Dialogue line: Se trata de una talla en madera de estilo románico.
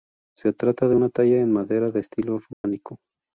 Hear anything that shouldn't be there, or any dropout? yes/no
yes